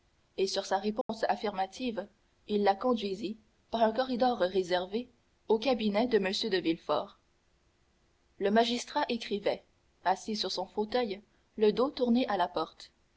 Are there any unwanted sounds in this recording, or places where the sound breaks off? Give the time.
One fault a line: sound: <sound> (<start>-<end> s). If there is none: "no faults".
sound: dropout (1.0-1.1 s)